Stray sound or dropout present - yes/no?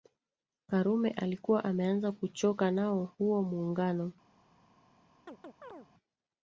yes